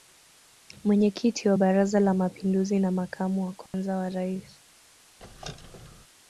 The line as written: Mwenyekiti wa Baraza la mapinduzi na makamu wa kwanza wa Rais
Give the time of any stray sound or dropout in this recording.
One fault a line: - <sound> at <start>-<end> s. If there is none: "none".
- dropout at 3.7-3.7 s
- squeak at 5.2-6.1 s